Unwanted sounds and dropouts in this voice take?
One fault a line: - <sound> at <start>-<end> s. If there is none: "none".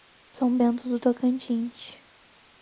none